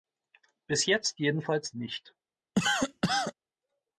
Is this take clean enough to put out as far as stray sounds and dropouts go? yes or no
no